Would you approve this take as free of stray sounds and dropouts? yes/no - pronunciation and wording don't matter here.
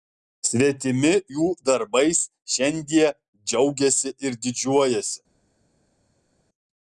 yes